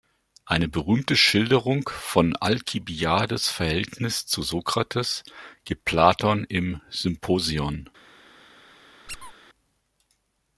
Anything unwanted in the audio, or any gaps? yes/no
yes